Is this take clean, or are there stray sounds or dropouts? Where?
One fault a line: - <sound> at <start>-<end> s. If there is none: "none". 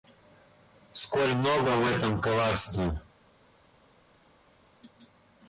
none